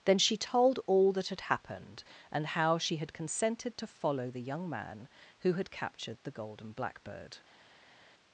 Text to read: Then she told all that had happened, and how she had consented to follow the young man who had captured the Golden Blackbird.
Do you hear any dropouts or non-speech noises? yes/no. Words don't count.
no